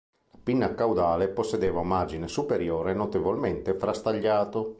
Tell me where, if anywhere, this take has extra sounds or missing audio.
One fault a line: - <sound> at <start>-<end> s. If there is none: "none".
none